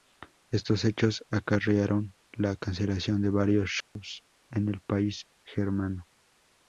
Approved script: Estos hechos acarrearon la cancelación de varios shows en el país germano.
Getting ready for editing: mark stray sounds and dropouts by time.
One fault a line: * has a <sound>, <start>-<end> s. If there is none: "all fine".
* has a dropout, 3.8-4.0 s